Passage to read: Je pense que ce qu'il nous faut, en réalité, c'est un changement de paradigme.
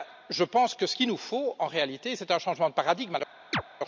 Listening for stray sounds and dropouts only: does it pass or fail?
fail